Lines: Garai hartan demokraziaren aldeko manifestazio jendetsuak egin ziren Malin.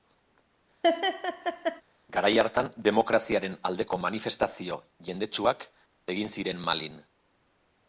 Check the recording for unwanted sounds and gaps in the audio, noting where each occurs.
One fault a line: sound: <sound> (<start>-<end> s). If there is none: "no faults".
sound: laugh (0.8-1.8 s)